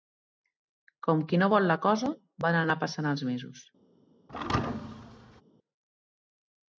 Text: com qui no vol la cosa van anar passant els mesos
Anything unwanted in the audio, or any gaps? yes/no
yes